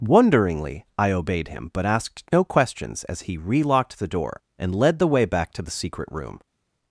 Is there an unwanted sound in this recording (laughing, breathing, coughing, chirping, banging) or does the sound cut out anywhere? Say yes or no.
no